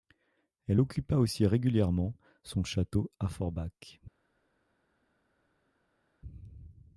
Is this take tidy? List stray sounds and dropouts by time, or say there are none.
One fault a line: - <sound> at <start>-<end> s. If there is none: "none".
none